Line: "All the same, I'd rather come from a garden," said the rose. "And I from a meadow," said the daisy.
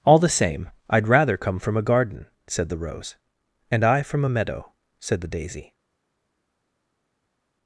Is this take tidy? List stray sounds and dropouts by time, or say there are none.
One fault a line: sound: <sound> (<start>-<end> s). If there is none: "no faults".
no faults